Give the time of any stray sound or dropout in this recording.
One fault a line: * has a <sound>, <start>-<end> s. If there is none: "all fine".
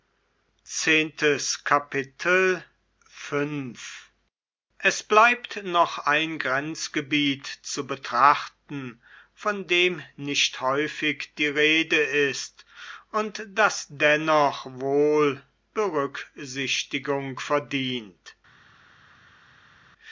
all fine